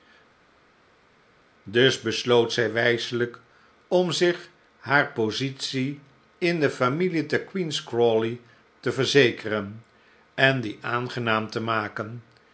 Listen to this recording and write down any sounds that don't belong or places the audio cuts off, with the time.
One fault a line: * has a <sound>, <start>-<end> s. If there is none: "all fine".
all fine